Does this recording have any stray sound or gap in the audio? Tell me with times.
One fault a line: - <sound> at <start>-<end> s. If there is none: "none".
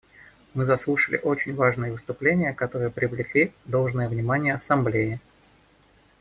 none